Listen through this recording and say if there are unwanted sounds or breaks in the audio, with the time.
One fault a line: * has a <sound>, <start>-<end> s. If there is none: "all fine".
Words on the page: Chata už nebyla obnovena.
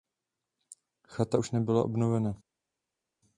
all fine